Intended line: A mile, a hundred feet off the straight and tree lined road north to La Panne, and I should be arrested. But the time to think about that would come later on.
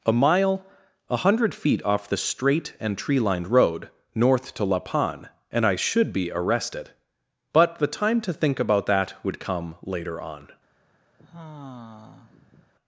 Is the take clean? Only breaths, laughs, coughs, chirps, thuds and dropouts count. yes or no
no